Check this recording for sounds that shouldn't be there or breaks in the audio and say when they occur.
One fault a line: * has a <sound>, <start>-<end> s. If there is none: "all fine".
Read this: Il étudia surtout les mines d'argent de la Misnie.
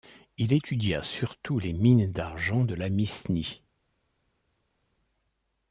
all fine